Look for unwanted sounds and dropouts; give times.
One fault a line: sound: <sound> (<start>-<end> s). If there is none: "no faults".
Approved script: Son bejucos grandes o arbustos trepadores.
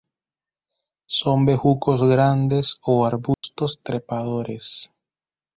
sound: dropout (3.3-3.4 s)